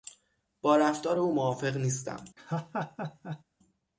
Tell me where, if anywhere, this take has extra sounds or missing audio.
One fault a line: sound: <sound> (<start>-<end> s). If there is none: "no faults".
sound: laugh (2.4-3.4 s)